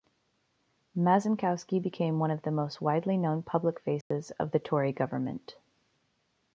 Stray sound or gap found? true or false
true